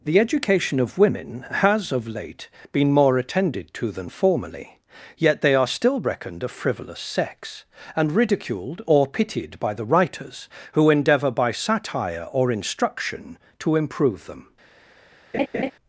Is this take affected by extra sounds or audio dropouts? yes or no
yes